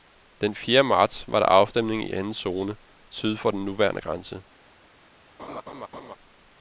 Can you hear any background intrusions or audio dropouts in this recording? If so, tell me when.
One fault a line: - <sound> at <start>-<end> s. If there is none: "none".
- laugh at 5.4-6.2 s